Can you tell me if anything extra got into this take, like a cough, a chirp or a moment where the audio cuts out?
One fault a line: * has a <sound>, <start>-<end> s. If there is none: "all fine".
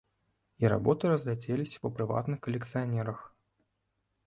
all fine